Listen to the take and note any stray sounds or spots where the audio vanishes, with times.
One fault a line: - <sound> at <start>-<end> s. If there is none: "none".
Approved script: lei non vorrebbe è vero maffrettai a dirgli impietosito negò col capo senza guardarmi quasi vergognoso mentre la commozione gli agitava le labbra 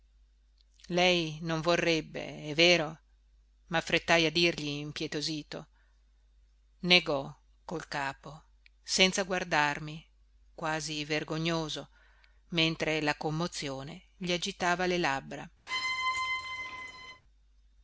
- squeak at 15.7-17.2 s